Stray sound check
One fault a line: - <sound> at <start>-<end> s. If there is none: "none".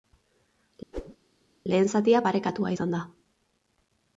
- whoosh at 0.9-1.2 s